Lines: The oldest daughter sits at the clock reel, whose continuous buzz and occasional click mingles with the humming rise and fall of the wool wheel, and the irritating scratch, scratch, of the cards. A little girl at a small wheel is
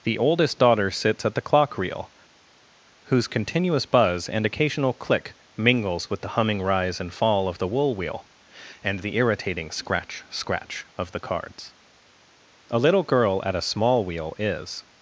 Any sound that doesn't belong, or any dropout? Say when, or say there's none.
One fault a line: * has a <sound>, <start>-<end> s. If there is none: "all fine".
all fine